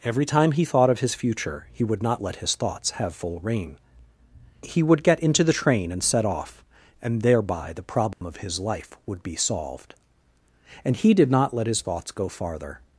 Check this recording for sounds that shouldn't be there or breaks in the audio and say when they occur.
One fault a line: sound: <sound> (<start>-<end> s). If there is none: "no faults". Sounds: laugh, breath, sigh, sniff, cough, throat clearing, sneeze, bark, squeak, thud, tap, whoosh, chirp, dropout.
sound: dropout (8.1-8.2 s)